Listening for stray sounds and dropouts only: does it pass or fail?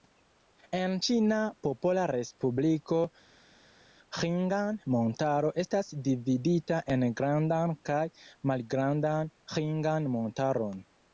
pass